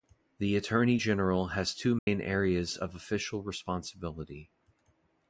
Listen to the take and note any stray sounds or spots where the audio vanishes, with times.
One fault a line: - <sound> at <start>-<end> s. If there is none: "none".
- dropout at 2.0-2.1 s